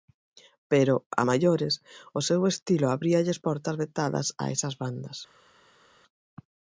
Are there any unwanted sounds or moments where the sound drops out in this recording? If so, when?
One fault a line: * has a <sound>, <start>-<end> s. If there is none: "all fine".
all fine